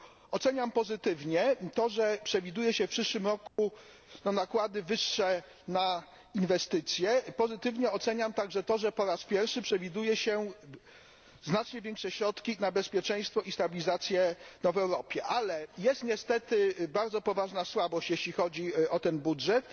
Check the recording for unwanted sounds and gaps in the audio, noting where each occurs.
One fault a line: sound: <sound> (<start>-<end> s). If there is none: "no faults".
sound: dropout (3.5-3.6 s)